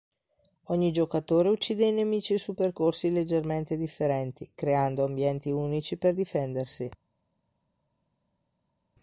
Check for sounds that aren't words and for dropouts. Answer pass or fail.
pass